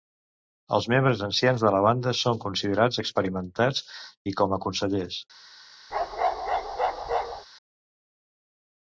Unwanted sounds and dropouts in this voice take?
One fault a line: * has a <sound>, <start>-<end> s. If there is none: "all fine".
* has a bark, 5.9-7.5 s